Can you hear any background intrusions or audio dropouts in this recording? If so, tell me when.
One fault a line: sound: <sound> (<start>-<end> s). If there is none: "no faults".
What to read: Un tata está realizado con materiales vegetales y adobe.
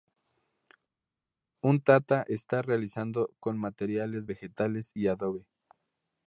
no faults